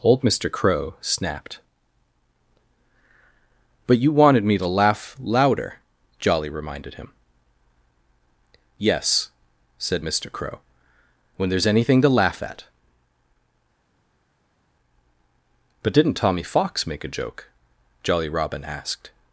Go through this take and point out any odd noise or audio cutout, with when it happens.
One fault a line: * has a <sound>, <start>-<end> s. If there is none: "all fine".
all fine